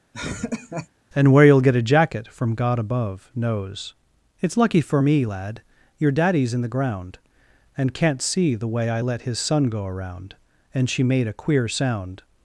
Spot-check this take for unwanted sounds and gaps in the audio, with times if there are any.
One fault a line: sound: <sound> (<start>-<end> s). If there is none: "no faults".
sound: laugh (0.1-0.9 s)